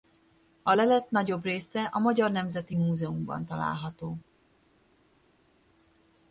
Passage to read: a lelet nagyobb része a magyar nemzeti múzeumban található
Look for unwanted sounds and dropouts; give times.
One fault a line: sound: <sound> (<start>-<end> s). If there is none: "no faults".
no faults